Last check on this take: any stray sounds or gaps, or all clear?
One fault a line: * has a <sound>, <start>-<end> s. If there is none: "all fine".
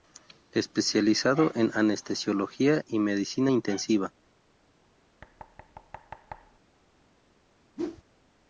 * has a thud, 5.2-6.6 s
* has a whoosh, 7.8-8.0 s